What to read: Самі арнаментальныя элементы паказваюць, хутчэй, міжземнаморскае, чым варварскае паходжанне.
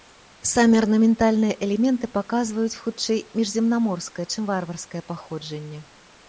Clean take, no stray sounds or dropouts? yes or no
yes